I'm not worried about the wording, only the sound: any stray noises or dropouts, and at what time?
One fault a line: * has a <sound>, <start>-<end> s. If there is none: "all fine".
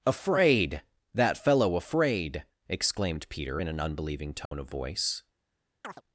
* has a dropout, 4.5-4.5 s
* has a chirp, 5.8-6.0 s